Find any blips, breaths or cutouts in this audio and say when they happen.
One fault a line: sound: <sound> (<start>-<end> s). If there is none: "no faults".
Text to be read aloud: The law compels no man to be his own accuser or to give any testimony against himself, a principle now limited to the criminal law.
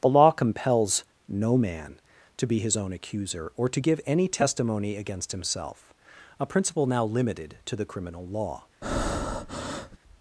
sound: breath (8.8-10.0 s)